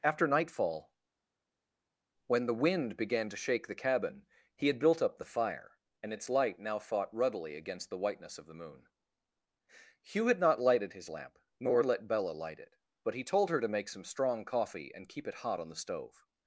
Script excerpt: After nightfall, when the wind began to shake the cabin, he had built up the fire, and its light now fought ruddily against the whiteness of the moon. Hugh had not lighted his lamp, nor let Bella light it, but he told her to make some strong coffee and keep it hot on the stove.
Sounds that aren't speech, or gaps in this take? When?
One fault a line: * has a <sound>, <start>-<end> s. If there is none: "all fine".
all fine